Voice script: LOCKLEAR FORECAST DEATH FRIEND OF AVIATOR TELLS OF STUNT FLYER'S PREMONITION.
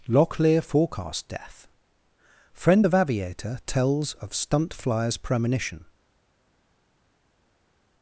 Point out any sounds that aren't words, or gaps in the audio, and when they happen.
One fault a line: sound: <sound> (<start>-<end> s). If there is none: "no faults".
no faults